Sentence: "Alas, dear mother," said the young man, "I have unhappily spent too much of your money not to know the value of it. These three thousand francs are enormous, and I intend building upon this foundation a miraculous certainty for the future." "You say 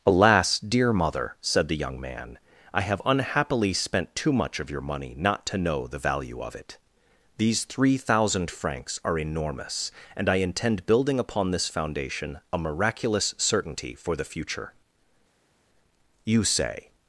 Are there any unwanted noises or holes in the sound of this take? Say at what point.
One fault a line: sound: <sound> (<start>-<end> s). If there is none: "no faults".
no faults